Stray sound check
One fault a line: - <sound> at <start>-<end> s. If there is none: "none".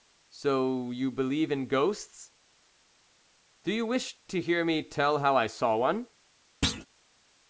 - thud at 6.6-6.9 s